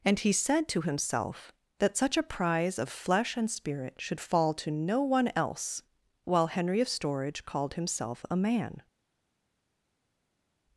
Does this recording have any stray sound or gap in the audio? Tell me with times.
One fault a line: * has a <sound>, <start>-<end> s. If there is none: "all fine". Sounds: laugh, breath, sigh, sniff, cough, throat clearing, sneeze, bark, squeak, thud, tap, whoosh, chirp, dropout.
all fine